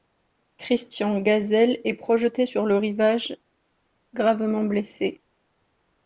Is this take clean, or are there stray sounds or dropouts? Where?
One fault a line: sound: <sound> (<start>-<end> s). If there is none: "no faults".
no faults